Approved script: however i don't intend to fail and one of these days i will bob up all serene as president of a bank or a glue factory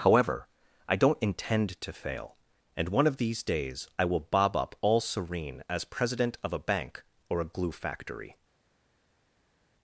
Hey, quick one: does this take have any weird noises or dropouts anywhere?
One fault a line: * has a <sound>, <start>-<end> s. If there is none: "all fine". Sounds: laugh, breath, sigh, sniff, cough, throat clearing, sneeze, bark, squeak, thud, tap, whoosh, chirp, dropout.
all fine